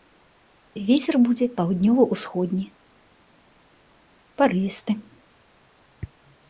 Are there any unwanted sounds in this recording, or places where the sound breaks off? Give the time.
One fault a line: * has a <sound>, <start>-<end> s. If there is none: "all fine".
all fine